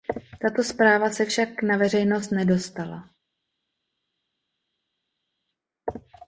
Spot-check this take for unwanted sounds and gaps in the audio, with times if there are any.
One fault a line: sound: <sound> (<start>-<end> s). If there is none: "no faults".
no faults